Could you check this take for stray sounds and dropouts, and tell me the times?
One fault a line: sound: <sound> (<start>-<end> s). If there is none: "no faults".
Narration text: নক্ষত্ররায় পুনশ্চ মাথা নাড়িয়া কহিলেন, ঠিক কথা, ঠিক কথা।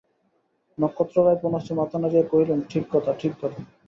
no faults